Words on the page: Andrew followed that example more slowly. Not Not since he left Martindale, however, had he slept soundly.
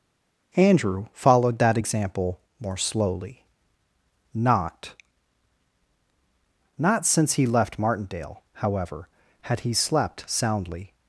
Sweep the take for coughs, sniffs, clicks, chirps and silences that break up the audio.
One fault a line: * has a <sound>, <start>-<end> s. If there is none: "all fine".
all fine